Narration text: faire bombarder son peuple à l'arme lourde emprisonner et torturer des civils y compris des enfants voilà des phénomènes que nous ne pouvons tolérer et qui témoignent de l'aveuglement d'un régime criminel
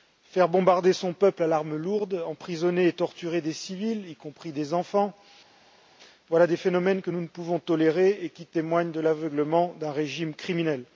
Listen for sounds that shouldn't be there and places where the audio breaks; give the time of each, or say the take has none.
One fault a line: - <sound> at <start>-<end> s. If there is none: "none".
none